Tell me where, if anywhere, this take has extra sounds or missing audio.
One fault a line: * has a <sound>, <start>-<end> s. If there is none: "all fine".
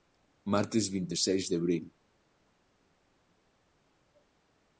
all fine